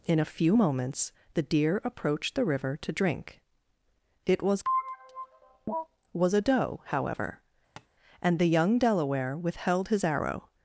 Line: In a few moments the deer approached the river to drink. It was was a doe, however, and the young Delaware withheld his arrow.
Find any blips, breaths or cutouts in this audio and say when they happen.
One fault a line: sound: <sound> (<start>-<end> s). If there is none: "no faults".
sound: tap (7.8-7.9 s)